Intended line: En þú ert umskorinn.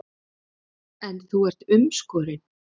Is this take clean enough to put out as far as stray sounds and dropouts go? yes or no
yes